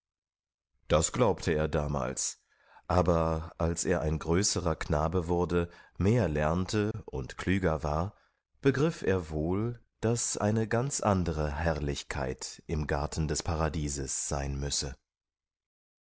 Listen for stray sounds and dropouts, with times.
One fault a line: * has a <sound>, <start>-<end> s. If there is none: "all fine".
* has a dropout, 6.9-6.9 s